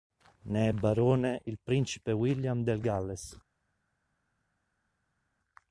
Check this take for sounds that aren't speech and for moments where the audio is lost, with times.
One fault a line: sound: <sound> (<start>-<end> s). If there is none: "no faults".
no faults